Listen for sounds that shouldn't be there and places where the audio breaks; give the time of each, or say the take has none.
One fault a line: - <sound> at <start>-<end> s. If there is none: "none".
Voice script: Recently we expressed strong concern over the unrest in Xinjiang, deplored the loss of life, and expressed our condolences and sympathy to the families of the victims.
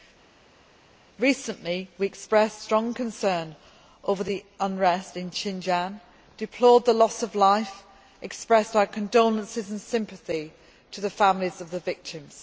none